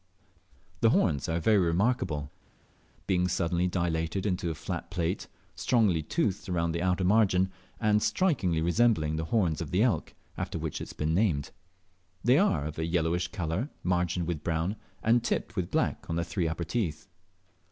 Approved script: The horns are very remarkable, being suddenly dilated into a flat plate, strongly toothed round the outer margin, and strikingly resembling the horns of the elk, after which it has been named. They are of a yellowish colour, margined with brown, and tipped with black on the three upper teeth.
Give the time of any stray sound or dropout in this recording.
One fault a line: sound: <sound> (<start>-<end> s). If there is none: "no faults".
no faults